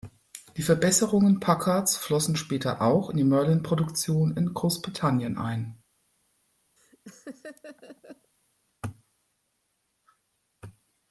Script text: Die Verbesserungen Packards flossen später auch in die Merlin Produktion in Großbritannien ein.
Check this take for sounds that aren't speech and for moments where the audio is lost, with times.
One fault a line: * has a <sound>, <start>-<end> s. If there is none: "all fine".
* has a laugh, 6.8-8.3 s